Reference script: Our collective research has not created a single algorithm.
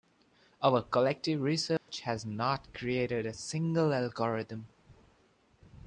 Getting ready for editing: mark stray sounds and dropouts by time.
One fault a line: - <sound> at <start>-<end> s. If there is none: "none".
- dropout at 1.8-1.9 s